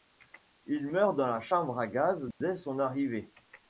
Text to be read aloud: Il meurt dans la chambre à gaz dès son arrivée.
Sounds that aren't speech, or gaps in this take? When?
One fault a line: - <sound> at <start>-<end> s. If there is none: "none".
- dropout at 2.3-2.4 s